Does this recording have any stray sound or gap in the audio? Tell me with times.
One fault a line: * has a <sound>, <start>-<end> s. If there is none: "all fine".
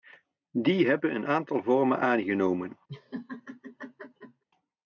* has a laugh, 2.9-4.4 s